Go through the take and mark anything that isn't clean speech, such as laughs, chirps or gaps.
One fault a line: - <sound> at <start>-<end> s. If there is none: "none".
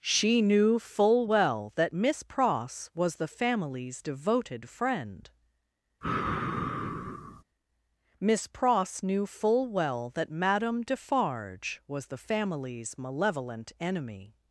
- sigh at 6.0-7.4 s